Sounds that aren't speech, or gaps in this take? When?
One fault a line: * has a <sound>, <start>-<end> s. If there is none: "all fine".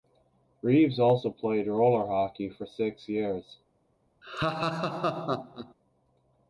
* has a laugh, 4.2-5.7 s